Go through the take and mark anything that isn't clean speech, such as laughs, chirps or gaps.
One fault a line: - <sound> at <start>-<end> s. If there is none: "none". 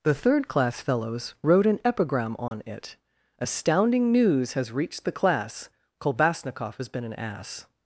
- dropout at 2.5-2.5 s